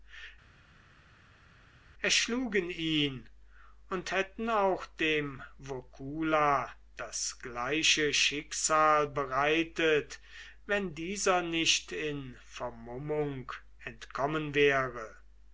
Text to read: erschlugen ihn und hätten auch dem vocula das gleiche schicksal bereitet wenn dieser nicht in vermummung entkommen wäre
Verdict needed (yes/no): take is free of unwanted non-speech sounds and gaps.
yes